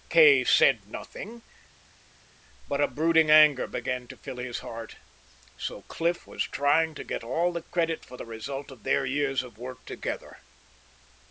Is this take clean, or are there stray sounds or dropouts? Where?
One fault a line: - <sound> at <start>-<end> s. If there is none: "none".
none